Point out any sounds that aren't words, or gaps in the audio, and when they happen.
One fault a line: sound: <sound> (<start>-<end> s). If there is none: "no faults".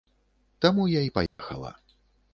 sound: dropout (1.3-1.4 s)